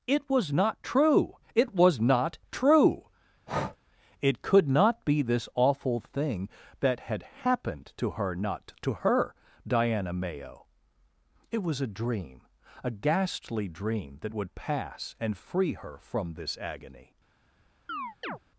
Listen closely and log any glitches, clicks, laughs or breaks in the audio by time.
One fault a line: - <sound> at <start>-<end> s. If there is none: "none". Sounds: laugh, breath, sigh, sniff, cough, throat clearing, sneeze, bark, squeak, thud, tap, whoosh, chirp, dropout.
- breath at 3.5-3.8 s
- chirp at 17.9-18.4 s